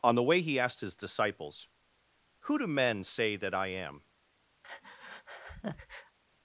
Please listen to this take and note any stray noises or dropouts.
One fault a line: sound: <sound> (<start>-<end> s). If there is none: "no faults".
sound: breath (4.6-6.2 s)